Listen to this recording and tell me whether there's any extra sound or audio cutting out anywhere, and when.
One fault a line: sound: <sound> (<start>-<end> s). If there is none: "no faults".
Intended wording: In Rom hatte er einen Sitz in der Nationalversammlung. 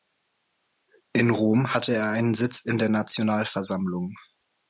no faults